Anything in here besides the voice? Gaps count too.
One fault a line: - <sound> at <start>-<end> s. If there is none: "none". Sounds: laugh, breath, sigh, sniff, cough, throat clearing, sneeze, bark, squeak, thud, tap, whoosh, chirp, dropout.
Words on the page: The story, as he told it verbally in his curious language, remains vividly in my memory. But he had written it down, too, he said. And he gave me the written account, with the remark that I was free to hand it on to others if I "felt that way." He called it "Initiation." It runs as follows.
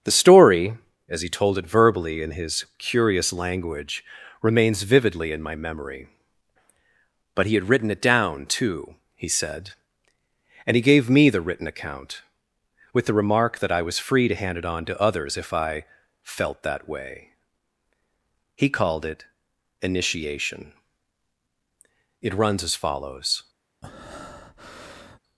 - breath at 23.8-25.2 s